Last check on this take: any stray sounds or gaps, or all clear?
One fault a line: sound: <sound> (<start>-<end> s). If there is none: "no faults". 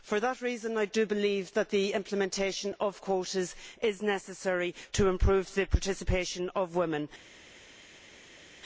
no faults